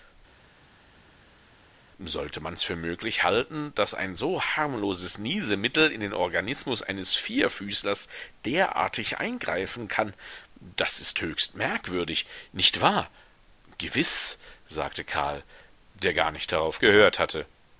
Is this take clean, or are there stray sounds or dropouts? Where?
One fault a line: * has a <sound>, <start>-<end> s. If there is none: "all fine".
all fine